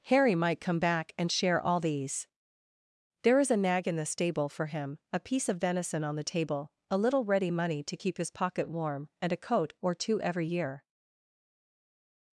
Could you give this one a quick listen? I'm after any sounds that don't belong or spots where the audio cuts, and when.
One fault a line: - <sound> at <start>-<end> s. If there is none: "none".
none